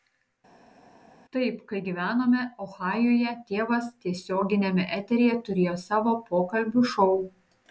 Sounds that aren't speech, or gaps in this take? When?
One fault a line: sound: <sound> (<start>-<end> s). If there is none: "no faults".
no faults